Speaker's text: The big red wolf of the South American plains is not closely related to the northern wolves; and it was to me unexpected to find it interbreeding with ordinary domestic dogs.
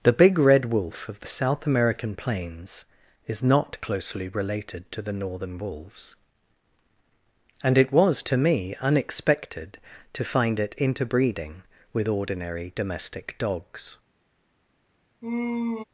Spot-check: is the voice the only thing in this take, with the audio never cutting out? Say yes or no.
no